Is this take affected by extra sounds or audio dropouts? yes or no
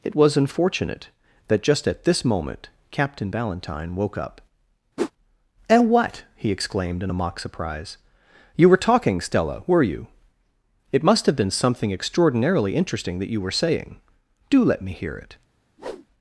yes